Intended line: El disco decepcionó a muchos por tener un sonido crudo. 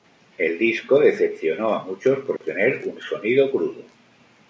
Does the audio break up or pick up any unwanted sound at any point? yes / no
yes